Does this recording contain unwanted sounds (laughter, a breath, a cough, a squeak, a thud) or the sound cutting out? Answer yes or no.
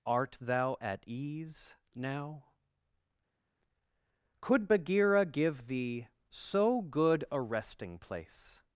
no